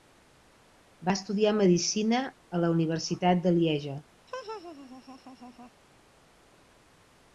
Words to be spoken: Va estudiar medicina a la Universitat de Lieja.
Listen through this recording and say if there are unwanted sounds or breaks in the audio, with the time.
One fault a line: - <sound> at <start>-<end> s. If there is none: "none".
- laugh at 4.3-5.7 s